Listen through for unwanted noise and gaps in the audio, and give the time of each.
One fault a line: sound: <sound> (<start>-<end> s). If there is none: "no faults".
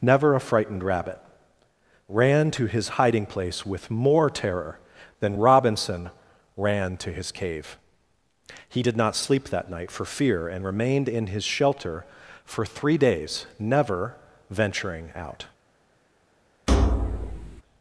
sound: thud (16.7-17.6 s)